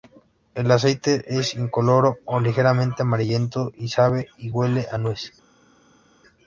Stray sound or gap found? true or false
false